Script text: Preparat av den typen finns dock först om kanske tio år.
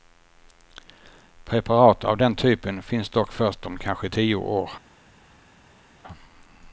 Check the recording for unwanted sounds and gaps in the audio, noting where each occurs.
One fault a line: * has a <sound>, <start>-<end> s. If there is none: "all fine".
all fine